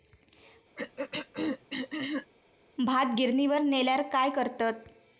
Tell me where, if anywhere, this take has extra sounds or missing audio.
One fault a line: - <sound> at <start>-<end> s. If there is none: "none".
- throat clearing at 0.8-2.3 s